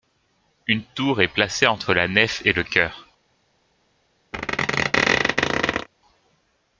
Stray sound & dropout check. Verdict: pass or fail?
fail